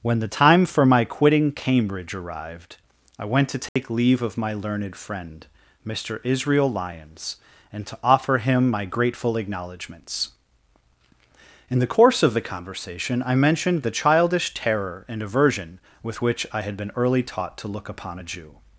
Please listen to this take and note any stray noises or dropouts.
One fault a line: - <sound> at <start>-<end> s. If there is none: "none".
- dropout at 3.7-3.8 s